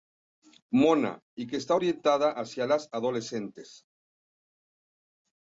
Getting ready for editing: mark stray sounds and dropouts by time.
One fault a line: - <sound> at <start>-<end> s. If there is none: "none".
none